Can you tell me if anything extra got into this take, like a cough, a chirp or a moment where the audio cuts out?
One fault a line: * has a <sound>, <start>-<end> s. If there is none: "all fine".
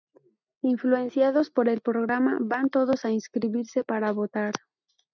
all fine